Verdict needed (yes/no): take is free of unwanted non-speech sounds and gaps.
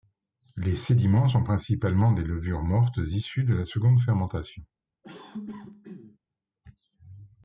no